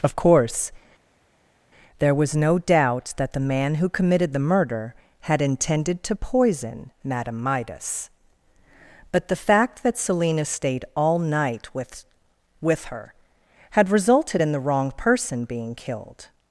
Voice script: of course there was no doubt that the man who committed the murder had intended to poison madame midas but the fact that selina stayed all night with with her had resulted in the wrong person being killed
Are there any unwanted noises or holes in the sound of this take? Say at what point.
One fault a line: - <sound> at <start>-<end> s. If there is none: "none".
none